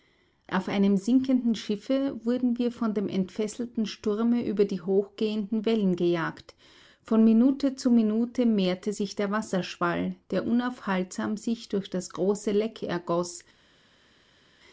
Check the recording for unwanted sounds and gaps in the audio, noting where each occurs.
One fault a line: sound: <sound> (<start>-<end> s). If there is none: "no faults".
no faults